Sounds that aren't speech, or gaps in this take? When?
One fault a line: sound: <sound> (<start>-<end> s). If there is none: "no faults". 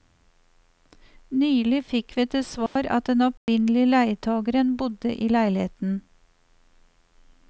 sound: dropout (2.7-2.8 s)
sound: dropout (3.4-3.5 s)